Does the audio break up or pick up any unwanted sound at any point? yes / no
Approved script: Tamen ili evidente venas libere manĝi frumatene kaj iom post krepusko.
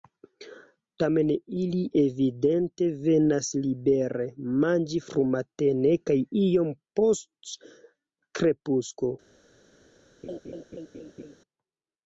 yes